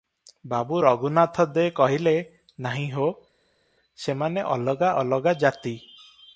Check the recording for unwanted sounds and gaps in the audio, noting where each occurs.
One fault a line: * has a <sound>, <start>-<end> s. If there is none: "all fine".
all fine